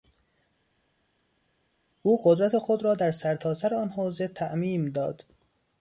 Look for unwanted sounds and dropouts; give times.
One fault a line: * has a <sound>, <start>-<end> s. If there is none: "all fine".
all fine